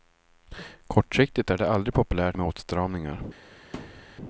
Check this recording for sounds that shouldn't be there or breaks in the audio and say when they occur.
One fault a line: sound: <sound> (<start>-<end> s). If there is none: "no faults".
sound: thud (3.7-4.2 s)